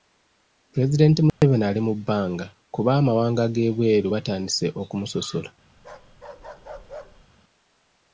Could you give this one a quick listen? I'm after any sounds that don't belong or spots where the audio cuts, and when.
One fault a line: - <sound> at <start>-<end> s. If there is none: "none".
- dropout at 1.3-1.4 s
- bark at 5.8-7.3 s